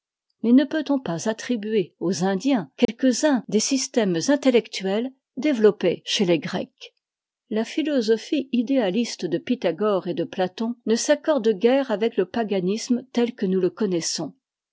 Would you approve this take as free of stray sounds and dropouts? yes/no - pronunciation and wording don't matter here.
no